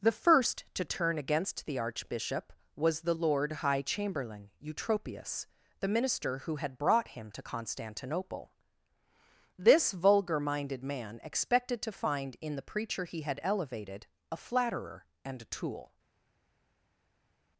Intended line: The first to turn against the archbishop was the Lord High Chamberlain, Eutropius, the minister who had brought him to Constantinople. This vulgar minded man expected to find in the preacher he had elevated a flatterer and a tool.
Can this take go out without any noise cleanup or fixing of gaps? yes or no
yes